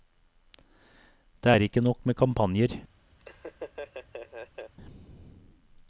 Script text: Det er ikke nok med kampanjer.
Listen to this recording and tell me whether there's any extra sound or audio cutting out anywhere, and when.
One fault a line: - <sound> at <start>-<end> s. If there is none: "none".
- laugh at 3.2-4.7 s